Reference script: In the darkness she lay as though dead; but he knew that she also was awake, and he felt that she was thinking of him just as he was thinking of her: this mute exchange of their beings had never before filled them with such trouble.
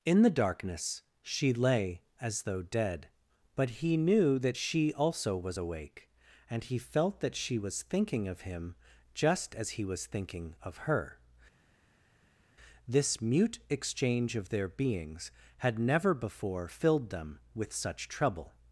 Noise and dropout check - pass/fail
pass